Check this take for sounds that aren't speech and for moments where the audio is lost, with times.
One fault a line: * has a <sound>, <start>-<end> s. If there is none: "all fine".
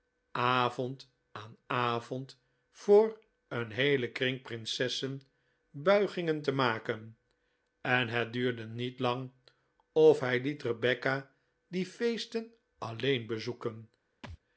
* has a thud, 14.2-14.4 s